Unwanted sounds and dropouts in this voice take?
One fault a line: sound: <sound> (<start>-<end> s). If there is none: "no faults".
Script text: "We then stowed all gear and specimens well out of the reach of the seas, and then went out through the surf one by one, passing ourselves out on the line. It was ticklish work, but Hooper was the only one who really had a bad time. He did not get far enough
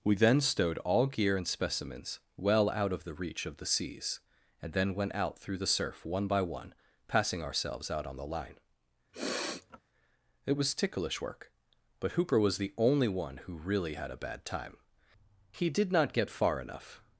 sound: sniff (9.1-9.8 s)